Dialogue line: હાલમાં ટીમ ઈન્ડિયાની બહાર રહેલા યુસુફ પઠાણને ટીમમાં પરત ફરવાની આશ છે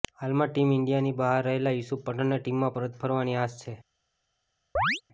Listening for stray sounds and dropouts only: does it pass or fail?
fail